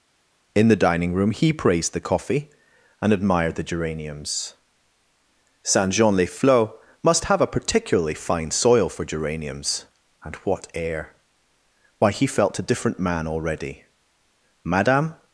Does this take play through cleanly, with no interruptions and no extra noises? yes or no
yes